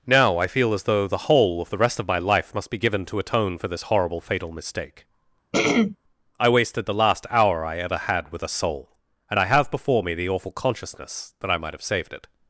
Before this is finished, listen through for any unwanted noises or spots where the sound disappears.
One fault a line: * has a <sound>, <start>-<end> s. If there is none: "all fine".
* has a throat clearing, 5.5-6.0 s